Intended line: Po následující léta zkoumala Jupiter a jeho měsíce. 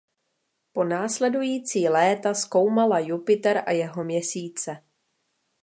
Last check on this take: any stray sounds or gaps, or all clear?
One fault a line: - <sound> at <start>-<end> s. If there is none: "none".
none